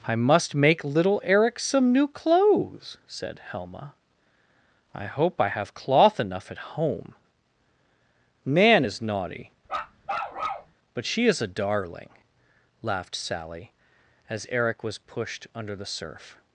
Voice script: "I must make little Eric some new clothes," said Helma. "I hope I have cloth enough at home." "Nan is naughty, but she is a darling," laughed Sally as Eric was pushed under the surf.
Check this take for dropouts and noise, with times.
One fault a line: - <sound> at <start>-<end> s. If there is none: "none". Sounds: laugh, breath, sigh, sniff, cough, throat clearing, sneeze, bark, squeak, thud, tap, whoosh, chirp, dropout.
- bark at 9.7-10.7 s